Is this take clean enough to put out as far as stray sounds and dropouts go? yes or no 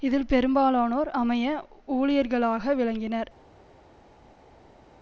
yes